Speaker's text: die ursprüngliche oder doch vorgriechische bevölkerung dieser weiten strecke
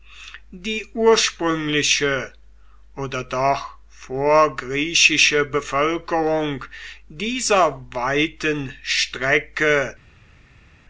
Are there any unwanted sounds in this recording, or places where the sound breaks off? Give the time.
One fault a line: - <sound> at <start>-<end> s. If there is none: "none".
none